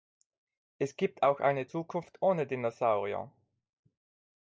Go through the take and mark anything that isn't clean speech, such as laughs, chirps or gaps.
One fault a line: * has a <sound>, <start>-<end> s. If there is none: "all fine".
all fine